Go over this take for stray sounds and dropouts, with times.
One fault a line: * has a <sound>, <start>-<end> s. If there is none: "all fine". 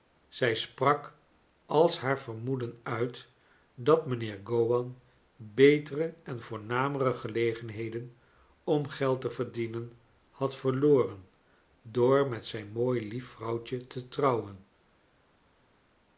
all fine